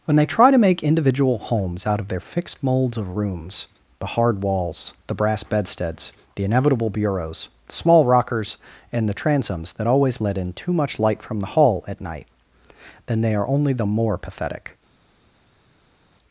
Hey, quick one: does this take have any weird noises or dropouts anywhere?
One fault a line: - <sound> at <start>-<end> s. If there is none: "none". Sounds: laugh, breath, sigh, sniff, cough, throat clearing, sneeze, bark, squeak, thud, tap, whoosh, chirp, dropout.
none